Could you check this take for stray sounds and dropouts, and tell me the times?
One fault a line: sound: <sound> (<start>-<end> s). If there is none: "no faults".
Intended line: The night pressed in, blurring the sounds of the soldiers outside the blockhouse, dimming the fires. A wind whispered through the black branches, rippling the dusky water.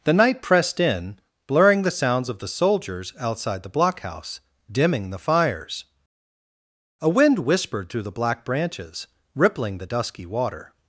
no faults